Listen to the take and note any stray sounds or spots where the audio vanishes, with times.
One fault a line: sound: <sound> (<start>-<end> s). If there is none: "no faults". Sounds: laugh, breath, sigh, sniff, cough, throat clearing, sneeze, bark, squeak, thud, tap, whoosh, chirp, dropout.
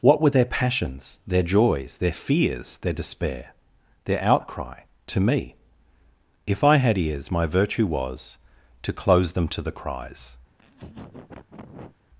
sound: laugh (10.5-12.0 s)